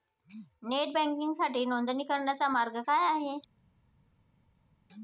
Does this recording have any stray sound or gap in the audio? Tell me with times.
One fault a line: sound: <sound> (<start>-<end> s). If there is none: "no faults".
no faults